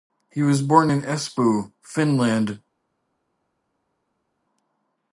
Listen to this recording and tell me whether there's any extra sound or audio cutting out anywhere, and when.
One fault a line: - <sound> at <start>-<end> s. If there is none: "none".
none